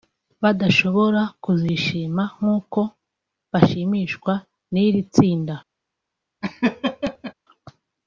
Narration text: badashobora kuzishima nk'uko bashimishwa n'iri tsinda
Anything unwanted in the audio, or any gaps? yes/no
yes